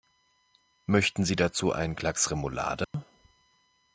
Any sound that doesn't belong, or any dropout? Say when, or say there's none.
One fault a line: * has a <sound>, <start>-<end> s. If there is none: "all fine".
* has a dropout, 2.8-2.9 s